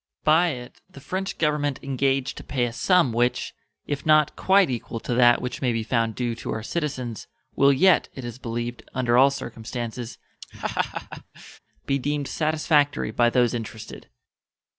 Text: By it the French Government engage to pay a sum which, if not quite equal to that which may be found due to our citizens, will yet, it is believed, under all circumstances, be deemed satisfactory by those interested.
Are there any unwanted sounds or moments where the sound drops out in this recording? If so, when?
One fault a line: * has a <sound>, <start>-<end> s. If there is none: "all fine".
* has a laugh, 10.4-11.6 s